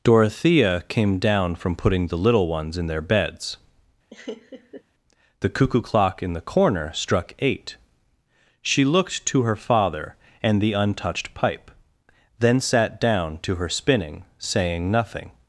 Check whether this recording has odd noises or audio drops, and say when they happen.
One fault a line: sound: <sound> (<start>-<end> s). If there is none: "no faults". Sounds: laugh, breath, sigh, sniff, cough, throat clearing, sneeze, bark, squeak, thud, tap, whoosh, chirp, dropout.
sound: laugh (4.1-4.8 s)